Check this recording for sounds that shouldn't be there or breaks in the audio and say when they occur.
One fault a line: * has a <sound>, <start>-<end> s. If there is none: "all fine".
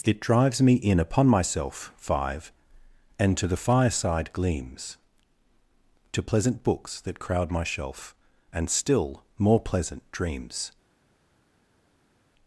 all fine